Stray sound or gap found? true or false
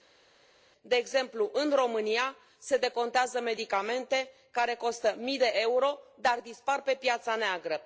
false